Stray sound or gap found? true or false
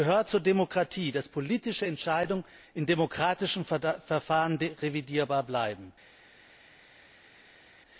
false